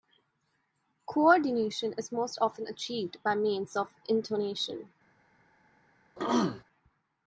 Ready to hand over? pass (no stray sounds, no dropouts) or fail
fail